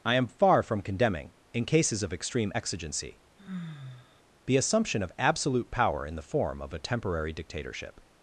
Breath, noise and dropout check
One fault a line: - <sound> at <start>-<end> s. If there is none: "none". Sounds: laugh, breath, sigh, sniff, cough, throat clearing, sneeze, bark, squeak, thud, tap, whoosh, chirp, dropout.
- sigh at 3.4-4.2 s